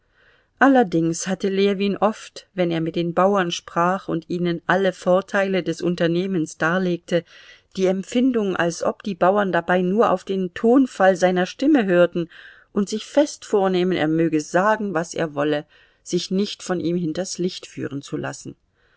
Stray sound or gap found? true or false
false